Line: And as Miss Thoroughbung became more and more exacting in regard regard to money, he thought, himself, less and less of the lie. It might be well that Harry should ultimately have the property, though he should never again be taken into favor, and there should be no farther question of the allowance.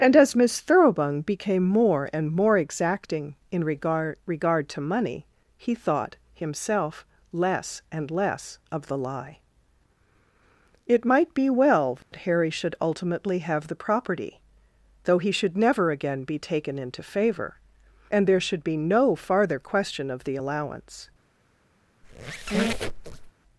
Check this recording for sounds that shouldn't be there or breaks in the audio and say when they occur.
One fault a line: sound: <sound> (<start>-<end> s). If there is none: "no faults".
sound: dropout (12.0-12.1 s)
sound: squeak (22.0-23.3 s)